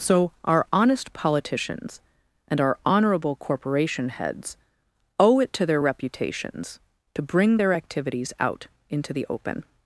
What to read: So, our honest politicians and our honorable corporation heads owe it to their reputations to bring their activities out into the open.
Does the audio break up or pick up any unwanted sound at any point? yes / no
no